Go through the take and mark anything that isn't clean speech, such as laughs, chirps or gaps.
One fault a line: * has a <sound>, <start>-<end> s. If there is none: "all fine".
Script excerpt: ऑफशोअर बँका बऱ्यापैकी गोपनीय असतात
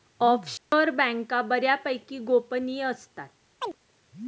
* has a dropout, 0.6-0.7 s
* has a chirp, 3.6-3.8 s